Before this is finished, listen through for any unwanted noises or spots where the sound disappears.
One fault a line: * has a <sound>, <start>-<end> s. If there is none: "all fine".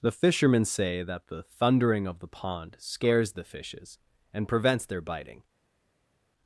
all fine